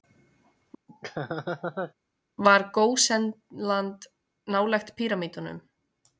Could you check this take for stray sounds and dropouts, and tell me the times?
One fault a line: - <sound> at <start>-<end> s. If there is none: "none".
- laugh at 0.9-1.9 s